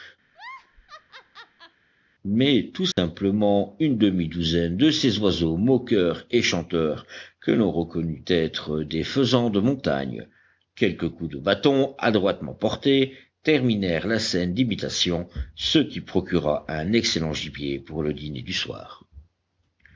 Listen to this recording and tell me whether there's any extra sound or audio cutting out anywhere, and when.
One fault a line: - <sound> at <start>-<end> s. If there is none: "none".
- laugh at 0.3-1.8 s
- dropout at 2.9-3.0 s